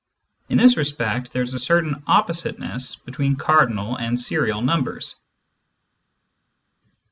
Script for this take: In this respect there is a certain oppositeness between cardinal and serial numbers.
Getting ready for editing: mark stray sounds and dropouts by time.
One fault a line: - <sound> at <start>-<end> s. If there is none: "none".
none